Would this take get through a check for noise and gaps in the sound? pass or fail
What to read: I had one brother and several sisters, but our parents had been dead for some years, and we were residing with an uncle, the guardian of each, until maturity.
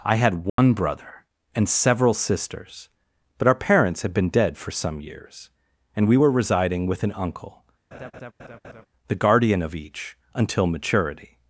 fail